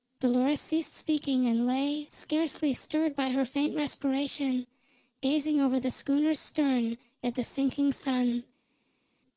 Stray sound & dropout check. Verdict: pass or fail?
pass